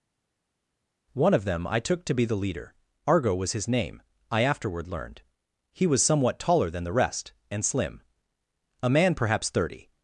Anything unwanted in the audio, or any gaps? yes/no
no